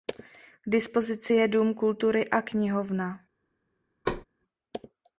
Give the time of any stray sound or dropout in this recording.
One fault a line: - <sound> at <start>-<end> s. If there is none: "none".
- thud at 4.0-4.2 s